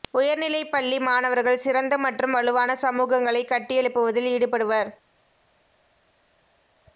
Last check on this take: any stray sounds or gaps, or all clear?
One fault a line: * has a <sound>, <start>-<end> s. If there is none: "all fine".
all fine